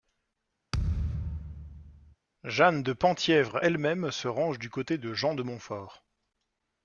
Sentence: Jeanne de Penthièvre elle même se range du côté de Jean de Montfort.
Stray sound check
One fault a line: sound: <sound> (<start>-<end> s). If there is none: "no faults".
sound: thud (0.7-2.2 s)